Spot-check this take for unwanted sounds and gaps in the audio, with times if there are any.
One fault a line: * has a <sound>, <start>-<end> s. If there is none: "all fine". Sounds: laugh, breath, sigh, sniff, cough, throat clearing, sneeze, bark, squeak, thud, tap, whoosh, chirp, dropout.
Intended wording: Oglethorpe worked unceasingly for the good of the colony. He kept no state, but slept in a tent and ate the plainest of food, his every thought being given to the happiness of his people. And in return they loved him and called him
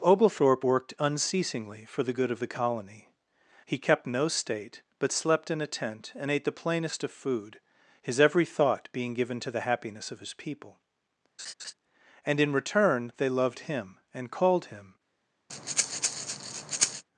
* has a laugh, 11.4-11.7 s
* has a breath, 15.5-17.0 s